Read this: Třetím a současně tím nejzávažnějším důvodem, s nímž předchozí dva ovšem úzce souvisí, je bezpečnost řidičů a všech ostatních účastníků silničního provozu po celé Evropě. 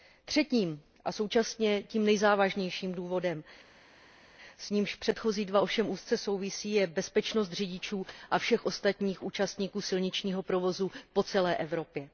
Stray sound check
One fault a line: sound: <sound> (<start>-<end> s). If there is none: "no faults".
no faults